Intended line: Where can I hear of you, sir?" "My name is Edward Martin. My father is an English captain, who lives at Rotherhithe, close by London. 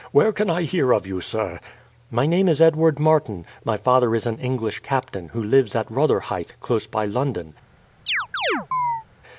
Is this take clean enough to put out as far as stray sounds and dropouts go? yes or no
no